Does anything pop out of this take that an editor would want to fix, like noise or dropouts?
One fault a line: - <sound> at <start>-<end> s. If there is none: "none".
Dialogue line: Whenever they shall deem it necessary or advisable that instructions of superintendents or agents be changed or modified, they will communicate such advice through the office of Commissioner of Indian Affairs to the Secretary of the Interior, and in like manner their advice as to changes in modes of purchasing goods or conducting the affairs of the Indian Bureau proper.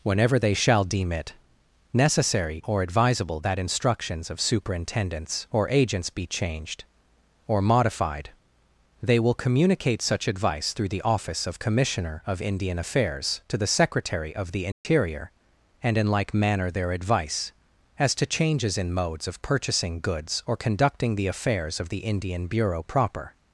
- dropout at 14.7-14.9 s